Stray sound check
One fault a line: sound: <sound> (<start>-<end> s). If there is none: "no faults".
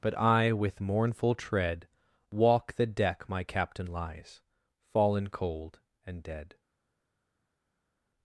no faults